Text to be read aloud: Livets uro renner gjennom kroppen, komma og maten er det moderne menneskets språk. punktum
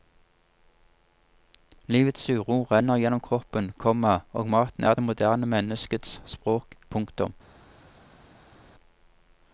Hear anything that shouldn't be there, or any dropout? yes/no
no